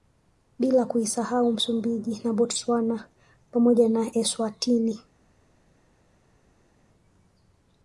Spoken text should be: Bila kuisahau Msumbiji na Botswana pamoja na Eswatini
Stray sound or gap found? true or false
false